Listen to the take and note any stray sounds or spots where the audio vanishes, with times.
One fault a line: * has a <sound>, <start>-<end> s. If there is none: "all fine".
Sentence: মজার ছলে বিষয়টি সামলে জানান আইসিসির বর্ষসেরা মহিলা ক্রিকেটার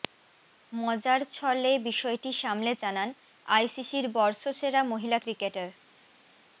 all fine